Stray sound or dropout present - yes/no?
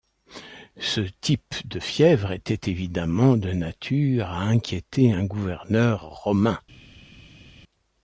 no